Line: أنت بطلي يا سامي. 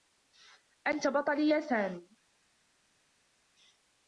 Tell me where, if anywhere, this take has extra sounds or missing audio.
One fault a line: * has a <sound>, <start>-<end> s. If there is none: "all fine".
all fine